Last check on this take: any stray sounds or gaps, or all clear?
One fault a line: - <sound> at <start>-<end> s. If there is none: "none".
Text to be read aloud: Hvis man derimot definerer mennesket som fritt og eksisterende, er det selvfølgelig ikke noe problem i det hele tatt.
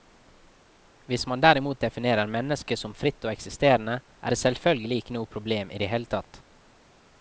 none